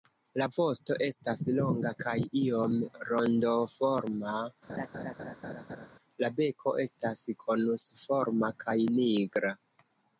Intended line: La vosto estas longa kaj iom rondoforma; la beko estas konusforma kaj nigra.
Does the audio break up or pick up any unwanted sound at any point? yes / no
yes